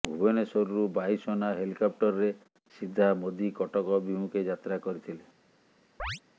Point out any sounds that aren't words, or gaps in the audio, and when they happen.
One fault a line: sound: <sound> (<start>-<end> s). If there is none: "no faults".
sound: chirp (6.0-6.2 s)